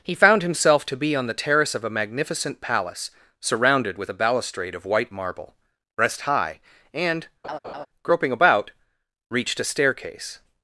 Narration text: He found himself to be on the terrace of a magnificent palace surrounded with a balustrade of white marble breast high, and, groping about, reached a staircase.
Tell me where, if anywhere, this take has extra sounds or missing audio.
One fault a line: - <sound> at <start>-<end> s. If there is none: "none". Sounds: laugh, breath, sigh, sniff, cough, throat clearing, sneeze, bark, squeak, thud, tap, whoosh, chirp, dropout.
- laugh at 7.4-7.9 s